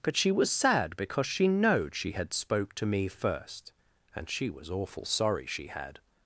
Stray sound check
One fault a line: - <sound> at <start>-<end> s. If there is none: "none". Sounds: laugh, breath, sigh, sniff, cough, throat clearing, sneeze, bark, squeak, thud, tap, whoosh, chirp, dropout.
none